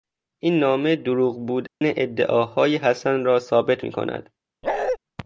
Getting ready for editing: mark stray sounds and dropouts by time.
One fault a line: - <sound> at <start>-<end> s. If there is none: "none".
- dropout at 1.7-1.8 s
- bark at 4.6-5.0 s